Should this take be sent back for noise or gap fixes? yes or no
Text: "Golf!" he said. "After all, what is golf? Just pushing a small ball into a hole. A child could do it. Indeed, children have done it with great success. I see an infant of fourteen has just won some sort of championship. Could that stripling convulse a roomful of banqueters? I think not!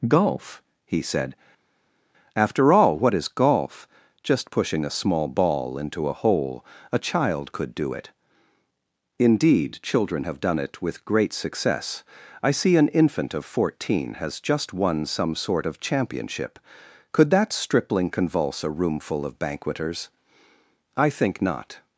no